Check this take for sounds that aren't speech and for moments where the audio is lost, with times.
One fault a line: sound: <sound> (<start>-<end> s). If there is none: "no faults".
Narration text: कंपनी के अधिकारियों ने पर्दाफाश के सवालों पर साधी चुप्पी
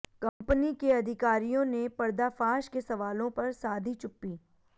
sound: dropout (0.3-0.4 s)